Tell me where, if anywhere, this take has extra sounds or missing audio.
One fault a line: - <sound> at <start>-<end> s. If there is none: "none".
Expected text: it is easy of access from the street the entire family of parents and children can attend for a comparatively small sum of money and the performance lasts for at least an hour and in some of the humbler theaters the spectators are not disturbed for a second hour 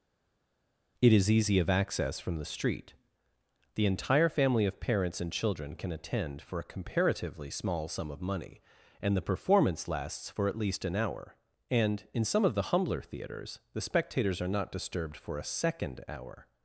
none